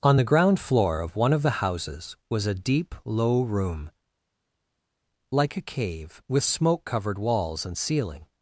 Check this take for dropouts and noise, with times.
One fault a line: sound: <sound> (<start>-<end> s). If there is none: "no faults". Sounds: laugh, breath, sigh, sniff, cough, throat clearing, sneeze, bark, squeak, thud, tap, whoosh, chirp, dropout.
no faults